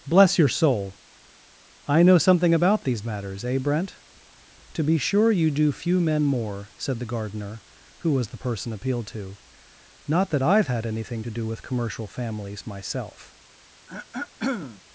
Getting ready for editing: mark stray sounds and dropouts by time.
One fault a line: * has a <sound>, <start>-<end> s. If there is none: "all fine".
* has a throat clearing, 13.9-14.8 s